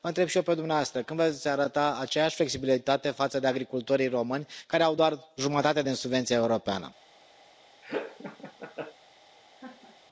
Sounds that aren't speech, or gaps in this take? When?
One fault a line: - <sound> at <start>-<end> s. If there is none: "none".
- laugh at 7.8-8.9 s
- laugh at 9.6-10.0 s